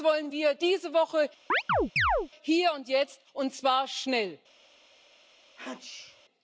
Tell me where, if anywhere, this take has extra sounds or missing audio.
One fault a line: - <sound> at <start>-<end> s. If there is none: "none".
- chirp at 1.5-2.3 s
- sneeze at 5.6-6.2 s